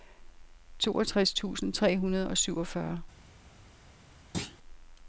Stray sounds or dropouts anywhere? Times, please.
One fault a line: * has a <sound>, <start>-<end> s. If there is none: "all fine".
* has a thud, 4.3-4.6 s